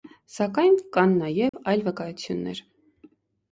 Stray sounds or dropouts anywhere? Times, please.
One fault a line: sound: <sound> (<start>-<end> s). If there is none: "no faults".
sound: dropout (1.5-1.5 s)